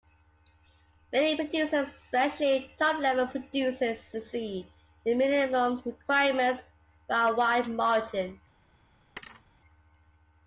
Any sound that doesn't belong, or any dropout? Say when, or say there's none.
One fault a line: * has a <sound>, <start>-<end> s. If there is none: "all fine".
* has a thud, 9.2-9.5 s